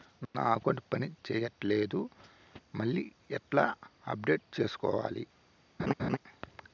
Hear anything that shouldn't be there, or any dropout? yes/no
yes